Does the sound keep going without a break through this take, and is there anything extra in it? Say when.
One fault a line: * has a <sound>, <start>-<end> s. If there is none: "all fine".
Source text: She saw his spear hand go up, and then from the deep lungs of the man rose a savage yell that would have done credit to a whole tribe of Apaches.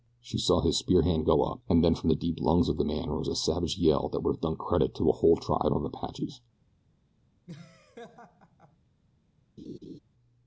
* has a laugh, 7.5-8.8 s
* has a laugh, 9.6-10.0 s